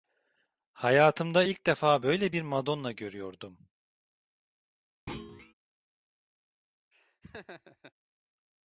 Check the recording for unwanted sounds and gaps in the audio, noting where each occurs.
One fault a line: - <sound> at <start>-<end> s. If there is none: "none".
- thud at 5.1-5.5 s
- laugh at 6.9-7.9 s